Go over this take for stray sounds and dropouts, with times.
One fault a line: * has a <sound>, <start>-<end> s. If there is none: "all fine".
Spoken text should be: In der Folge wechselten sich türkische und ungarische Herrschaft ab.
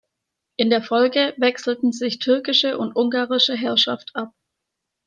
all fine